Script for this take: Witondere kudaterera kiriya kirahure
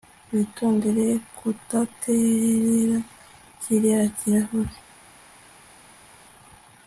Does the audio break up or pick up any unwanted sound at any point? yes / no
no